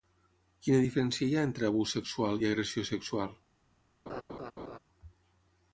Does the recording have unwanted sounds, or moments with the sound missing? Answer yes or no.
yes